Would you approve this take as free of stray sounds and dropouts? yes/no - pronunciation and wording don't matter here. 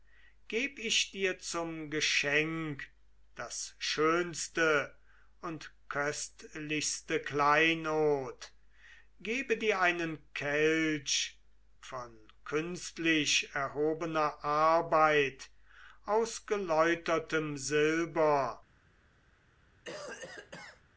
no